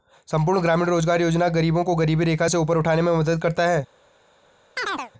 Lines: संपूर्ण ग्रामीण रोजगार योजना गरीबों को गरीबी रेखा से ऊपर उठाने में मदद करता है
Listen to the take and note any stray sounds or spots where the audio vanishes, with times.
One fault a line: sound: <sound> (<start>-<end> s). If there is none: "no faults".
sound: chirp (4.8-5.1 s)